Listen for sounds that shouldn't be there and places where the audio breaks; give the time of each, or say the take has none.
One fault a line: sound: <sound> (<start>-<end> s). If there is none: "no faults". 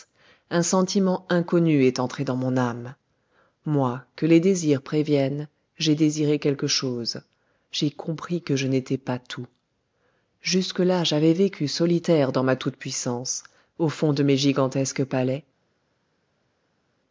no faults